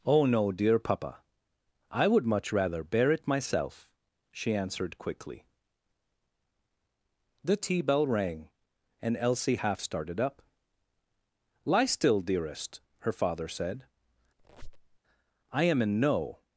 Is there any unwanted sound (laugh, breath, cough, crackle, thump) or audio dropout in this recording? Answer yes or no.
yes